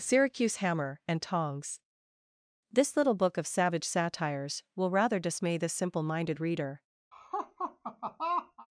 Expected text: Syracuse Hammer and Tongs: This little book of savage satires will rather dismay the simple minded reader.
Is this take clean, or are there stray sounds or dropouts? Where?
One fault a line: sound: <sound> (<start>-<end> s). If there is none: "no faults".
sound: laugh (7.1-8.7 s)